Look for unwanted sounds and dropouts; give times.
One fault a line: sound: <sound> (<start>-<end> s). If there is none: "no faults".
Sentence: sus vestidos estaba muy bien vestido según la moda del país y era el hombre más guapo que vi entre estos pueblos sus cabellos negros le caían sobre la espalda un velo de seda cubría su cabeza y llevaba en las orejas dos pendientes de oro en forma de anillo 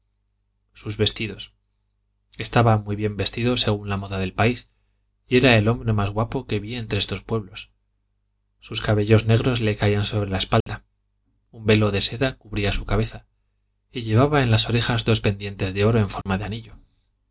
sound: dropout (10.6-10.7 s)
sound: dropout (16.2-16.3 s)